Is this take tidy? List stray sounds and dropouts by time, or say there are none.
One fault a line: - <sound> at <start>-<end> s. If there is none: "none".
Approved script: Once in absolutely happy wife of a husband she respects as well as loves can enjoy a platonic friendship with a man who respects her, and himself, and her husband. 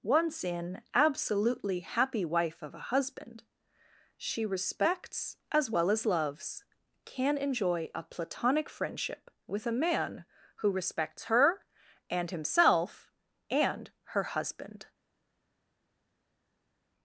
none